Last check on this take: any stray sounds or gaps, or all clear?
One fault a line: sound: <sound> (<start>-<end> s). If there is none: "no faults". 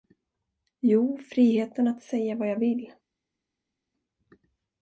no faults